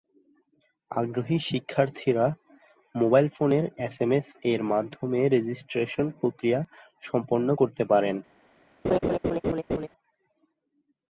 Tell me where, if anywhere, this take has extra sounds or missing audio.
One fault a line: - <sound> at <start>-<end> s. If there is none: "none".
- laugh at 8.8-9.9 s